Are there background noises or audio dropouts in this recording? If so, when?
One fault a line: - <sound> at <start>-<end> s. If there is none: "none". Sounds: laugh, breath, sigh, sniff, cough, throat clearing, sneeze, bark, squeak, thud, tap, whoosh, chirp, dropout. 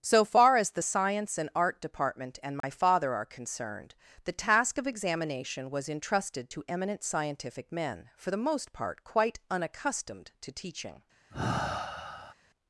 - dropout at 2.6-2.6 s
- sigh at 11.3-12.3 s